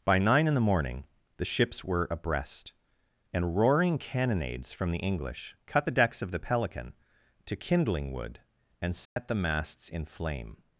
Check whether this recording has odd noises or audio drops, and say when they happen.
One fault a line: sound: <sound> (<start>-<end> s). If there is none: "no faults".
sound: dropout (9.1-9.2 s)